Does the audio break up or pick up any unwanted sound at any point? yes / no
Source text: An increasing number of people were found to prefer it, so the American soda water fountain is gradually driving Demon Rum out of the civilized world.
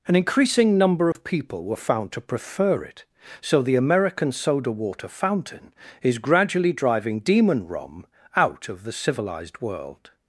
yes